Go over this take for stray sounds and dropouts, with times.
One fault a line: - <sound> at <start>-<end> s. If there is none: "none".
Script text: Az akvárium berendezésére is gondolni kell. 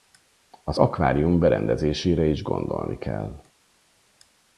none